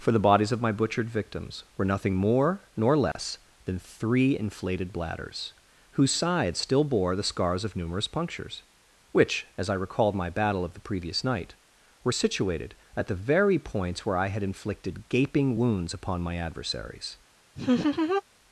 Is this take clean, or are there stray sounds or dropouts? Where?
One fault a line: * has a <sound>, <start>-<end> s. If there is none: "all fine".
* has a dropout, 3.1-3.2 s
* has a laugh, 17.6-18.2 s